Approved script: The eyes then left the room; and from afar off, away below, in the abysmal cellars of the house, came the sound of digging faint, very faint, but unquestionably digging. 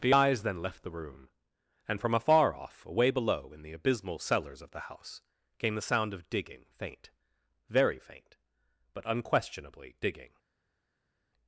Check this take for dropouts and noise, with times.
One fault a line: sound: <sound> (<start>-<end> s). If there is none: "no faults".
no faults